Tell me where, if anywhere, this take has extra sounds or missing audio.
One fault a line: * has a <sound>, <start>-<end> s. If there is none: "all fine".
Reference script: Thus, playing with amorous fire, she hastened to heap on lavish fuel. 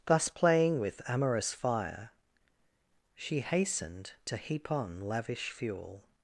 all fine